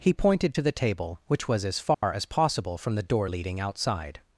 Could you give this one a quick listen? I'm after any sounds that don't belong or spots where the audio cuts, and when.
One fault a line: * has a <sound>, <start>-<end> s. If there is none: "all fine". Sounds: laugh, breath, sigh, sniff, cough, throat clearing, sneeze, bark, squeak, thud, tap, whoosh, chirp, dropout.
* has a dropout, 1.9-2.0 s